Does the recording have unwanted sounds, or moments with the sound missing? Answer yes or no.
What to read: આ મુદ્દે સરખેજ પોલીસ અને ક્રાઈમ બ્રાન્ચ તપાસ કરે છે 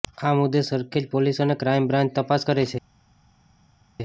no